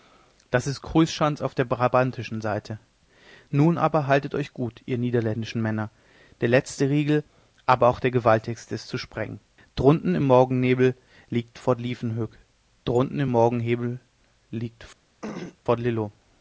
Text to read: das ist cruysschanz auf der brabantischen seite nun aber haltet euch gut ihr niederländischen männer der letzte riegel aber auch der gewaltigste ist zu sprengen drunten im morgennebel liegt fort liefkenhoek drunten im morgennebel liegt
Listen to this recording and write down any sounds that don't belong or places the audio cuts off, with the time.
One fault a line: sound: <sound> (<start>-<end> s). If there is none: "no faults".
sound: throat clearing (15.2-15.6 s)